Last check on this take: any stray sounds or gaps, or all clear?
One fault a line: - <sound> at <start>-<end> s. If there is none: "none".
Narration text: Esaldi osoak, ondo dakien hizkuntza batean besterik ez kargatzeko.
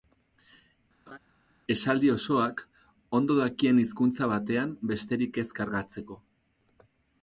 - laugh at 1.1-1.2 s